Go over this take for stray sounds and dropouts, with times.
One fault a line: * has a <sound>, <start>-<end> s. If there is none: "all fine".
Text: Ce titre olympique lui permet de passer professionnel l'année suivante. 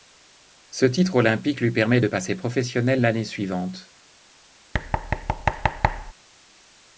* has a thud, 4.7-6.1 s